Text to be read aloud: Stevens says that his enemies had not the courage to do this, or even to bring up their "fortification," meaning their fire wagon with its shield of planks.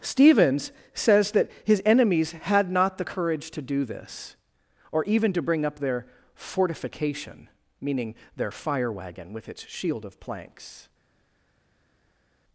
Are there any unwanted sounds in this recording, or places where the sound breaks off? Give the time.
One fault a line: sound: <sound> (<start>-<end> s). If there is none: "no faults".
no faults